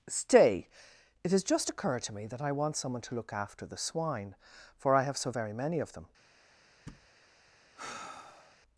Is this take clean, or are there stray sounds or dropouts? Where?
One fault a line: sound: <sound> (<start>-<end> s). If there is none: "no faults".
sound: thud (6.9-7.1 s)
sound: sigh (7.7-8.6 s)